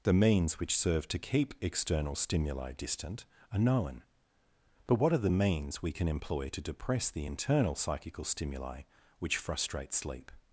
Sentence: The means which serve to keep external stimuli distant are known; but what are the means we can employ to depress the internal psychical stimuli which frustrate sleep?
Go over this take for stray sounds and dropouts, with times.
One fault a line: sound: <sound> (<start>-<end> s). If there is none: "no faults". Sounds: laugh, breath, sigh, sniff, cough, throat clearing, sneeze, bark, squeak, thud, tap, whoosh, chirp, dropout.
no faults